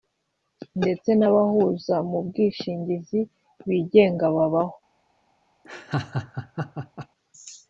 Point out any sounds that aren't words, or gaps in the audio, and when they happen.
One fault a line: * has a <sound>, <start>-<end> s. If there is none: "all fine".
* has a laugh, 5.6-7.1 s